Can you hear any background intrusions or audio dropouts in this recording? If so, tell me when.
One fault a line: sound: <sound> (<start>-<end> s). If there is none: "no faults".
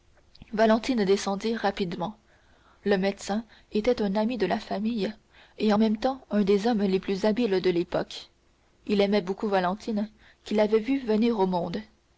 no faults